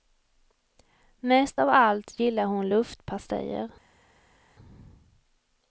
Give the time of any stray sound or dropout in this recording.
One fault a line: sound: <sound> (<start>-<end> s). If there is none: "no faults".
no faults